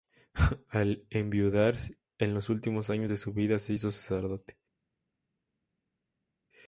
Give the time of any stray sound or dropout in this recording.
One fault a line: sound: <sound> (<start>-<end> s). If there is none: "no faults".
no faults